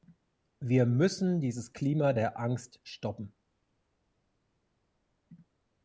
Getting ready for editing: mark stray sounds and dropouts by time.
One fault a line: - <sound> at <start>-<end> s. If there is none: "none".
none